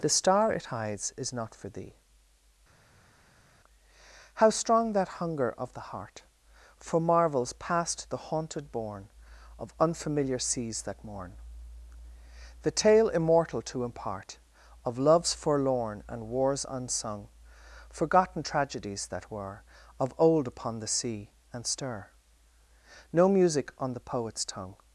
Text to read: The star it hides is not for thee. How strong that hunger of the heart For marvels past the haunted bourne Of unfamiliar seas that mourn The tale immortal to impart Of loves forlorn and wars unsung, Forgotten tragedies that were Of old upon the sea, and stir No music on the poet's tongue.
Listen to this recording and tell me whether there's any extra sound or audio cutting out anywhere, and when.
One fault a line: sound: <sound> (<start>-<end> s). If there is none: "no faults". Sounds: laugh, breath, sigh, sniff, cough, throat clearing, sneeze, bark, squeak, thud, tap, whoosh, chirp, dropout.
no faults